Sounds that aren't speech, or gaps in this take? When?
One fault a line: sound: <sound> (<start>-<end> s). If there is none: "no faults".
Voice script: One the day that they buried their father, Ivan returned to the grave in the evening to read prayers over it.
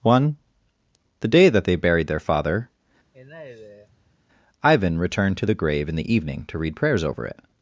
sound: sigh (3.1-4.2 s)